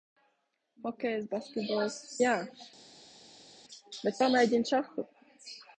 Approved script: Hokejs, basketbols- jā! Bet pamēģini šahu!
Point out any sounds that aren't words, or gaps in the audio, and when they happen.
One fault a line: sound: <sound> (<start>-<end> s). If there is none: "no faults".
no faults